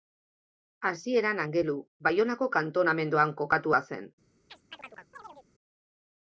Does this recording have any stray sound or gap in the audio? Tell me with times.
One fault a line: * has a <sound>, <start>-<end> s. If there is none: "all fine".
* has a chirp, 4.5-5.5 s